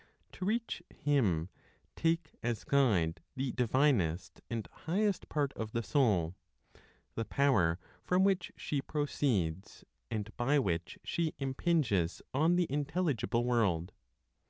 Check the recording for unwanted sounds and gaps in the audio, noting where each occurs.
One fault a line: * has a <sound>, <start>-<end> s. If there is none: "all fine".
all fine